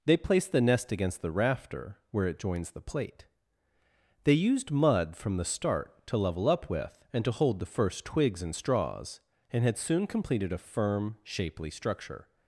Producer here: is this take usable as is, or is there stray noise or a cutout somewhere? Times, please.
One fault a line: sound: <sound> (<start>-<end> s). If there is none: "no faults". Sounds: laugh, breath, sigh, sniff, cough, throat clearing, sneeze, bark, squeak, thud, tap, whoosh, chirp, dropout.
no faults